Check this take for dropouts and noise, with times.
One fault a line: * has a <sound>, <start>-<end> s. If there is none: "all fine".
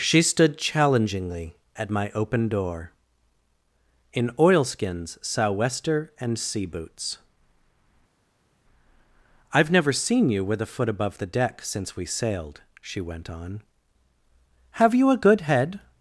all fine